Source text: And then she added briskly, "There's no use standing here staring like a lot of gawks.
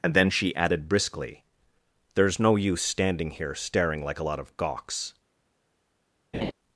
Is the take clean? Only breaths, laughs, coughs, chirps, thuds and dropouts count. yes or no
no